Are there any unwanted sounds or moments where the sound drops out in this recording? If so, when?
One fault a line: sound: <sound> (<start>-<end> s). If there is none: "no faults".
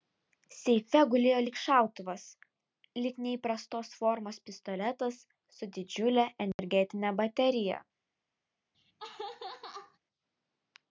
sound: dropout (6.5-6.6 s)
sound: laugh (8.7-10.0 s)